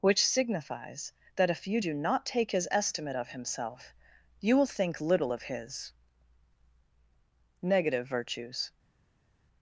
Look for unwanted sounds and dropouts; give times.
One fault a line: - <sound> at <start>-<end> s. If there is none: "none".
none